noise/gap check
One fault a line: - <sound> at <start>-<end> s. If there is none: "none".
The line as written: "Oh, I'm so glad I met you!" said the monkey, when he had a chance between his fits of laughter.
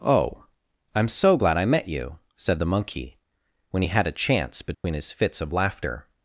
- dropout at 4.7-4.8 s